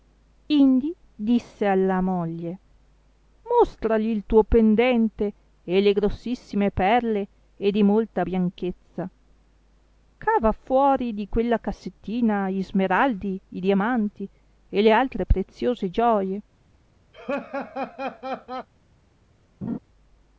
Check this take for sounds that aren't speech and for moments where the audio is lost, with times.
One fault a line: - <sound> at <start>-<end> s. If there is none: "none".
- laugh at 17.1-18.7 s
- laugh at 19.6-19.8 s